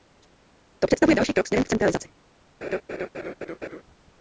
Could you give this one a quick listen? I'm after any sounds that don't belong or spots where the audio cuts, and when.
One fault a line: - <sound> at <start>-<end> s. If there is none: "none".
- laugh at 2.6-3.8 s